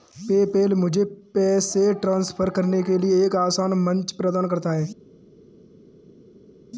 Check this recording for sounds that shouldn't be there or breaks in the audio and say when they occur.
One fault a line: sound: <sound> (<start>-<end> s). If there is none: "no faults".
no faults